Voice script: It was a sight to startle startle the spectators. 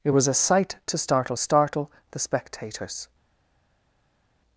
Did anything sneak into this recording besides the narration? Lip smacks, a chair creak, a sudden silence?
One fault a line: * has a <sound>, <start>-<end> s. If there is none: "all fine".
all fine